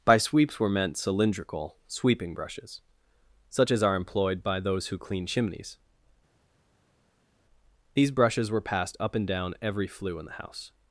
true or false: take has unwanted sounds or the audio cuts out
false